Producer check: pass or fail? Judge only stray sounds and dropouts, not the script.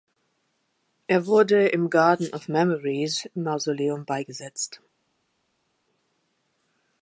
pass